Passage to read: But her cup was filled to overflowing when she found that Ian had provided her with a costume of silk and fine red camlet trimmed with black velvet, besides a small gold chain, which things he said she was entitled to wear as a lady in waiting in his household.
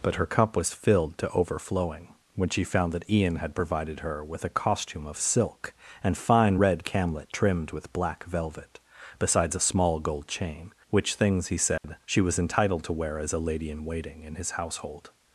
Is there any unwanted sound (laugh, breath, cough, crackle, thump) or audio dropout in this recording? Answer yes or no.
yes